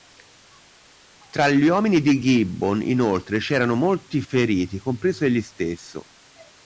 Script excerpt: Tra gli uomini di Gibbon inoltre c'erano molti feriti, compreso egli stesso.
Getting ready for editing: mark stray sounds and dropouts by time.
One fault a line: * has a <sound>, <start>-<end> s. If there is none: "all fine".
all fine